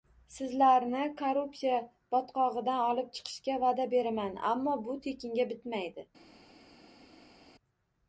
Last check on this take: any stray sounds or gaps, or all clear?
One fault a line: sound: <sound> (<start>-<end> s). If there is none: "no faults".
no faults